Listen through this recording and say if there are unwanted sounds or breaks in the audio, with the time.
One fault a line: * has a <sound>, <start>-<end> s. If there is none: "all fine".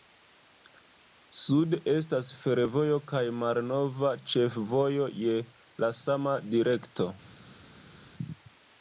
all fine